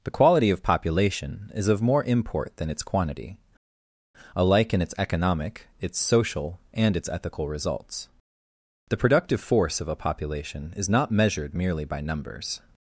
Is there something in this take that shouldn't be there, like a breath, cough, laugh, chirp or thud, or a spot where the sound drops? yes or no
no